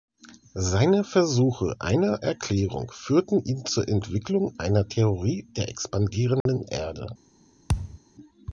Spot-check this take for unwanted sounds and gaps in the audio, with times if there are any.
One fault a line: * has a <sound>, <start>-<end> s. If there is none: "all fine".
* has a dropout, 6.4-6.5 s
* has a thud, 7.7-8.0 s